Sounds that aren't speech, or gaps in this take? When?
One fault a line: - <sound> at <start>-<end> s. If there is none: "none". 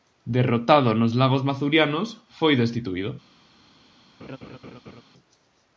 - laugh at 4.2-5.0 s